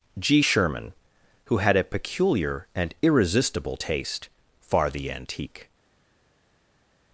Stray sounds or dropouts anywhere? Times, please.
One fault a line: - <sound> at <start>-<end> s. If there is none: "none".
none